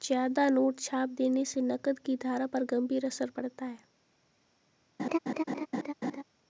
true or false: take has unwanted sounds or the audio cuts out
true